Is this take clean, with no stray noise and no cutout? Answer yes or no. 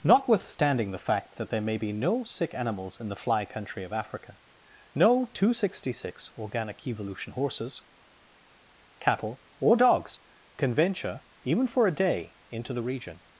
yes